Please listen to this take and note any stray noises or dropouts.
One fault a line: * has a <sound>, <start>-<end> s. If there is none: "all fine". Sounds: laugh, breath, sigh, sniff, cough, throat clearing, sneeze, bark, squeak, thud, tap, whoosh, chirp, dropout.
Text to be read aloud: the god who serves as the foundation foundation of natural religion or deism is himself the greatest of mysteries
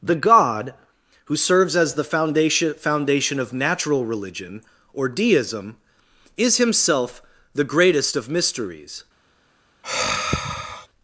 * has a sigh, 9.8-10.9 s